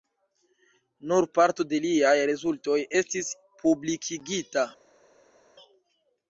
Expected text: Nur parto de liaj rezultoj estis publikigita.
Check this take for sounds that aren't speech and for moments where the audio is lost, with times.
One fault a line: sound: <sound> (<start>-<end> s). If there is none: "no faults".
no faults